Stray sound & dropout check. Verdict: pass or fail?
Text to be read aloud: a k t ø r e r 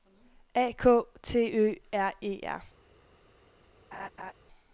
fail